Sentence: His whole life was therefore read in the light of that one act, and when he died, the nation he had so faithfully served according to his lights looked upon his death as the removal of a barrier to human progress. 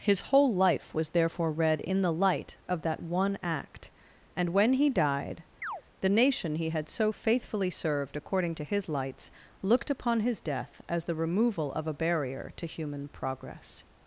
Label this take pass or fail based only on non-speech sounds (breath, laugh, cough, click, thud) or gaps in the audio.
fail